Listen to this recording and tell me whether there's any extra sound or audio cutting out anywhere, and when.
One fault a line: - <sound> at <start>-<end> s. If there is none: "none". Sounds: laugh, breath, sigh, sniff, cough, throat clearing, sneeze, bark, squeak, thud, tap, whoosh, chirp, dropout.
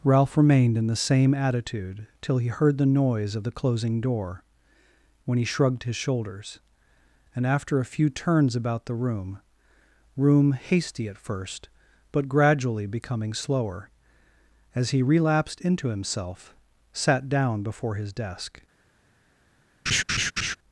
- laugh at 19.9-20.6 s